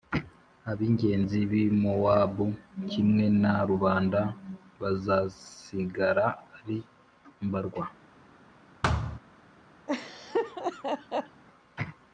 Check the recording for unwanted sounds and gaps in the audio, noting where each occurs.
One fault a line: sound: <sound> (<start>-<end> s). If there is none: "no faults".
sound: thud (8.8-9.2 s)
sound: laugh (9.9-11.4 s)